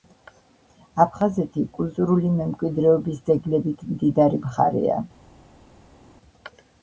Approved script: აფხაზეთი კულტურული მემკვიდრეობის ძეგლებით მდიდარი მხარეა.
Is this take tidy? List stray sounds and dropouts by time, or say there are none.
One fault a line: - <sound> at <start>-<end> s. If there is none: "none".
none